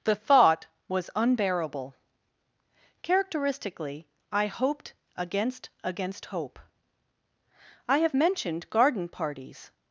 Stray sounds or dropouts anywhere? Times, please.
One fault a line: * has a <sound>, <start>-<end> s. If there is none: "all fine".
all fine